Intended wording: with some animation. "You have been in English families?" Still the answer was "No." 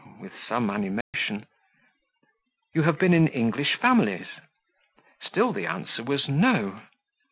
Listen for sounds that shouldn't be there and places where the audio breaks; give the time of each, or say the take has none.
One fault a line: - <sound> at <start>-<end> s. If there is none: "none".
- dropout at 1.0-1.1 s